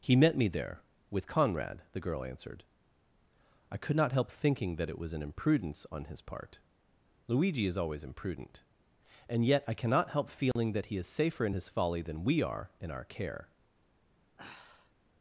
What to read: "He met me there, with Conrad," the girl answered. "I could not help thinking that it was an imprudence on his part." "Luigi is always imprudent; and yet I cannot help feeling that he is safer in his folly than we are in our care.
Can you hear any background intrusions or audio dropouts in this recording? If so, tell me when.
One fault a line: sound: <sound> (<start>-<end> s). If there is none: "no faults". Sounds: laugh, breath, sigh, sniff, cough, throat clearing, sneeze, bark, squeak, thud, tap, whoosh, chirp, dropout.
sound: dropout (10.5-10.6 s)
sound: sigh (14.4-14.9 s)